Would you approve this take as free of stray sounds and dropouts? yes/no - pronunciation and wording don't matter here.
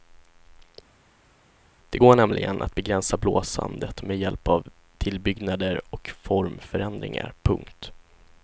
yes